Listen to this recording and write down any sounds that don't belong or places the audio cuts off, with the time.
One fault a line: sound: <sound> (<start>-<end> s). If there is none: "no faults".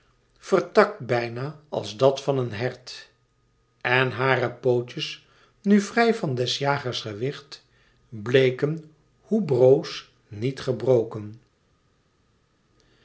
no faults